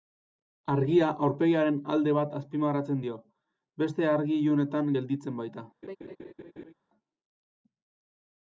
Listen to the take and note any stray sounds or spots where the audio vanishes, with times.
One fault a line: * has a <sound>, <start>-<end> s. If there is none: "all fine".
* has a laugh, 5.8-6.7 s